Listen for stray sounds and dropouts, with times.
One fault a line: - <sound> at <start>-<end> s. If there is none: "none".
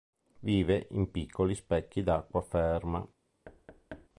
- thud at 3.4-4.1 s